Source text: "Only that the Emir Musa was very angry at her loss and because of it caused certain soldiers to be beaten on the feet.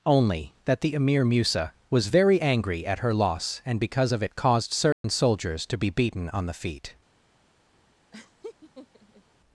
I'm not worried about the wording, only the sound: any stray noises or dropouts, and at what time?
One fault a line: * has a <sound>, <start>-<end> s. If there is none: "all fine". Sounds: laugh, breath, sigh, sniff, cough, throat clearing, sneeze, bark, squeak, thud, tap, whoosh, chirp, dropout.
* has a dropout, 4.9-5.0 s
* has a laugh, 8.1-9.2 s